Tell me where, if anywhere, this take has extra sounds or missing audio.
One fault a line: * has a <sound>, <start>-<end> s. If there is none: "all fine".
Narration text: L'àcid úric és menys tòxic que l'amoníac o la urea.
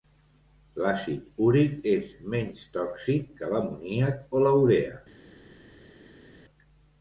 all fine